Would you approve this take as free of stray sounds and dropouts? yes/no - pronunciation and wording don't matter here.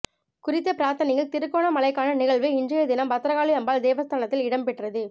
yes